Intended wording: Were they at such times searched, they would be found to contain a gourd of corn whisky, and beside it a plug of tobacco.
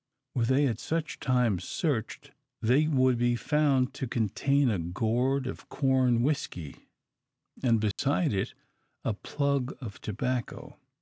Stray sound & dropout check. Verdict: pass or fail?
fail